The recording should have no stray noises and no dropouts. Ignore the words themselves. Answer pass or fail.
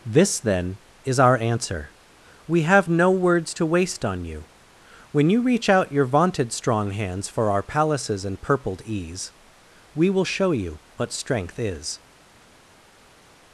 pass